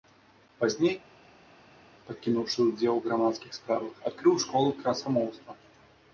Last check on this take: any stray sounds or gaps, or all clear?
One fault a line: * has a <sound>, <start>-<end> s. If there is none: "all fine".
all fine